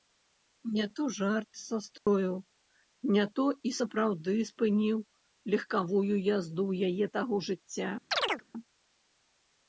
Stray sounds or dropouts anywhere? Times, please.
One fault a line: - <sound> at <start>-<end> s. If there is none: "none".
- dropout at 2.0-2.1 s
- chirp at 8.1-8.4 s